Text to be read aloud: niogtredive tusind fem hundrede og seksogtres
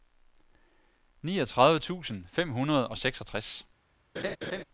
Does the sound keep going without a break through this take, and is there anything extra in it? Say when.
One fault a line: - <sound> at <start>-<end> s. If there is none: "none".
- laugh at 4.2-4.6 s